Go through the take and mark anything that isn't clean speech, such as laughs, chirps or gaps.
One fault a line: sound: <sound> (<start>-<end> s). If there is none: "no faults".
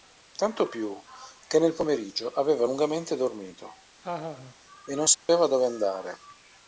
sound: laugh (4.0-4.6 s)
sound: dropout (5.1-5.3 s)